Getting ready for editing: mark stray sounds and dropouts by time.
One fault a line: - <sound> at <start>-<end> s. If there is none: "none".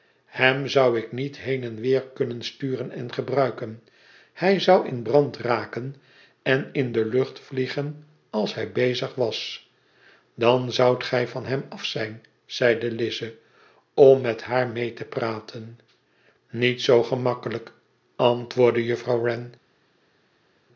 none